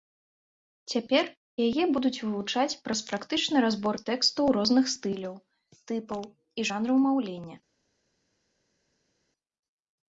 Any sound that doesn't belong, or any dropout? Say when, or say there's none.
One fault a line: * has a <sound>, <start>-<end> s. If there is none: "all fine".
all fine